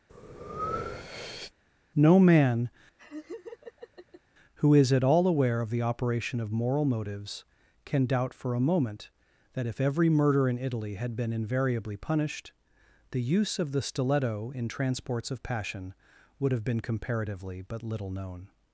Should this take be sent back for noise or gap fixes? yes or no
yes